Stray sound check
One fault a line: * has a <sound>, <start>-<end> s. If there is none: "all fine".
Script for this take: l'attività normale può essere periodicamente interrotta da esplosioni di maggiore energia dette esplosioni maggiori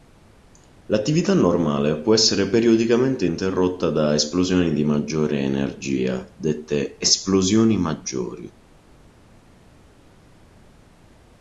all fine